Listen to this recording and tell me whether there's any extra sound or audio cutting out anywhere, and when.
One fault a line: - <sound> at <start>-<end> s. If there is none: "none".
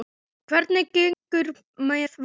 - dropout at 1.1-1.3 s